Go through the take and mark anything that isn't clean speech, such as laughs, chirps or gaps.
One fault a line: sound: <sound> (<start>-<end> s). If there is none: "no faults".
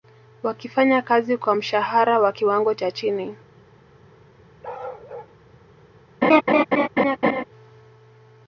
sound: bark (4.6-5.3 s)
sound: laugh (6.2-7.4 s)